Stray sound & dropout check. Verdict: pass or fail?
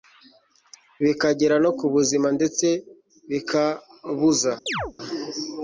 fail